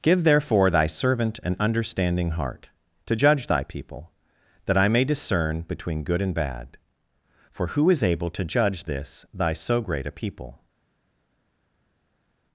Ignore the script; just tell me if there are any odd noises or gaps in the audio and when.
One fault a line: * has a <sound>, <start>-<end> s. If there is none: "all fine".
all fine